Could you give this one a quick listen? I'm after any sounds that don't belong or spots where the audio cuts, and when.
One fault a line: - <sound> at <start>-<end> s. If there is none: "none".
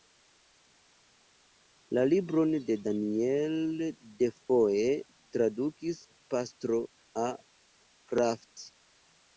none